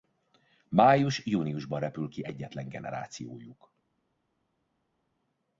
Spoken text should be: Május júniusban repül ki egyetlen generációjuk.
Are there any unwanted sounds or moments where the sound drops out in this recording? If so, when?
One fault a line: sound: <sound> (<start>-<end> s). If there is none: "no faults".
no faults